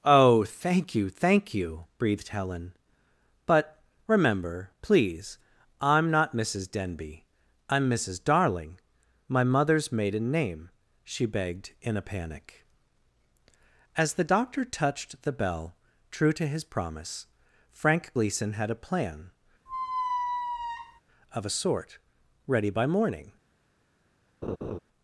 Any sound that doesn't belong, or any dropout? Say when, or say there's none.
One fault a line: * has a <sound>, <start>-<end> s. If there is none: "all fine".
* has a squeak, 19.7-21.0 s
* has a laugh, 24.4-24.8 s